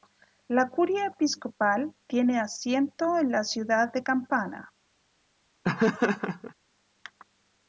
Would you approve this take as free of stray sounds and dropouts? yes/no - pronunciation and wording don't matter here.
no